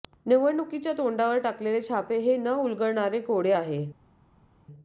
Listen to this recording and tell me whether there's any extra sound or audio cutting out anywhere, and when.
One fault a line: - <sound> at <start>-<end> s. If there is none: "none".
none